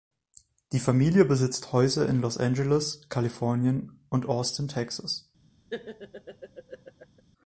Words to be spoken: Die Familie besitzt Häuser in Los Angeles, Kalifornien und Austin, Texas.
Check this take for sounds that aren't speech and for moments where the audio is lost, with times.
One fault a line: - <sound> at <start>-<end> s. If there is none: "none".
- laugh at 5.7-7.2 s